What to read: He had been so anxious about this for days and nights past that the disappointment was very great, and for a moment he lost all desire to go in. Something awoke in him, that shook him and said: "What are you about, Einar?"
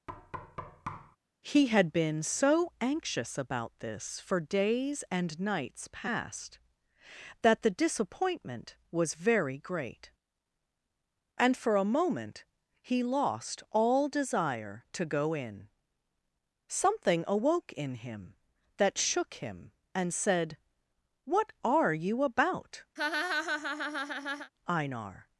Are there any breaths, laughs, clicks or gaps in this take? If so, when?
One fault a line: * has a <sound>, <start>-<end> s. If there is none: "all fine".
* has a thud, 0.1-1.2 s
* has a laugh, 23.0-24.5 s